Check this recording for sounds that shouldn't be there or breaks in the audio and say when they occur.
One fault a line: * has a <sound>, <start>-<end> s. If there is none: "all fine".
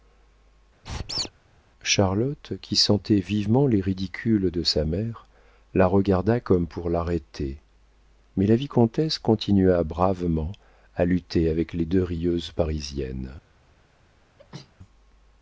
* has a squeak, 0.8-1.3 s
* has a sneeze, 14.4-14.7 s